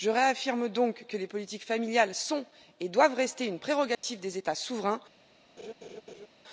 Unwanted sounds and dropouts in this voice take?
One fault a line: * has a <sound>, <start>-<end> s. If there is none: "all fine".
* has a dropout, 3.9-4.0 s
* has a laugh, 5.6-6.3 s